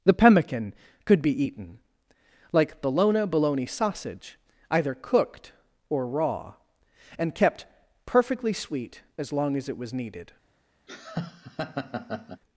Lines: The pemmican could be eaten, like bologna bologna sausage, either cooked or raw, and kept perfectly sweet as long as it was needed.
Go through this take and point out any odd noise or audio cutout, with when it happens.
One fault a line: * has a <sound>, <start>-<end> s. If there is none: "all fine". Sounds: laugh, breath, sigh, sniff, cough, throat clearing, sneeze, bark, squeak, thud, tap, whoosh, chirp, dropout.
* has a laugh, 10.9-12.4 s